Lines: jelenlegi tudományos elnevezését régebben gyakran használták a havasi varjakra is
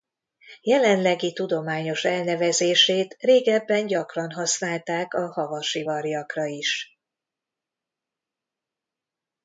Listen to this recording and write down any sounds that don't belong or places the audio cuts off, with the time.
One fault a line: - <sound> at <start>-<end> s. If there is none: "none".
none